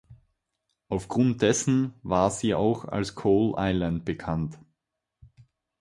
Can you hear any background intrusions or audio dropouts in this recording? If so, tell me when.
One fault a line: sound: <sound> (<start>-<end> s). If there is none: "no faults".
no faults